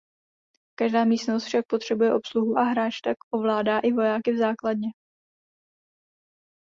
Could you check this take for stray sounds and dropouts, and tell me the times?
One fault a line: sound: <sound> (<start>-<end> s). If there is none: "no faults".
no faults